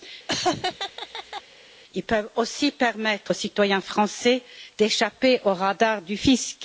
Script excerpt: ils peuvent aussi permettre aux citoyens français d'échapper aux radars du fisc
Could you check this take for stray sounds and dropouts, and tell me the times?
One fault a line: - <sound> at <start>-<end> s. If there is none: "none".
- laugh at 0.3-1.4 s